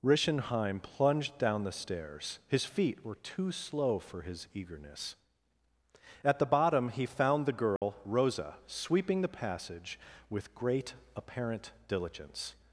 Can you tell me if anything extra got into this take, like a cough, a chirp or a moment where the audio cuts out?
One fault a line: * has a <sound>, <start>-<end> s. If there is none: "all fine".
* has a dropout, 7.8-7.8 s